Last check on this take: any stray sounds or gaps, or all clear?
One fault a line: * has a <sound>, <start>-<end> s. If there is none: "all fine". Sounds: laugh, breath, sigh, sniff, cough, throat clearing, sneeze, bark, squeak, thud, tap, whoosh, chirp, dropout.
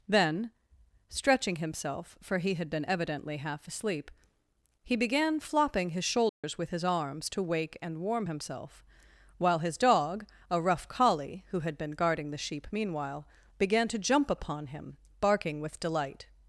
* has a dropout, 6.3-6.4 s